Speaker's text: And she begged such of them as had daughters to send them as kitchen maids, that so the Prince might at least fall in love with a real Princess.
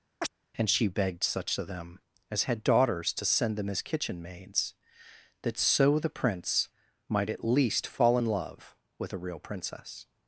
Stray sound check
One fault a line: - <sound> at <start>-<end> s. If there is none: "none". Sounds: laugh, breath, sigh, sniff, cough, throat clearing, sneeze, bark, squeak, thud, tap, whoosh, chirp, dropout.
- chirp at 0.2-0.3 s